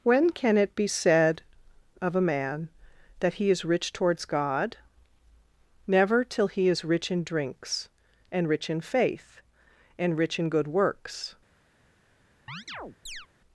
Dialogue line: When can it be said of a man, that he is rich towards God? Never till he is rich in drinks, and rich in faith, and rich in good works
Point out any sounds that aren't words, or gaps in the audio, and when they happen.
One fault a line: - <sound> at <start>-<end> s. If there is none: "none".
- chirp at 12.5-13.3 s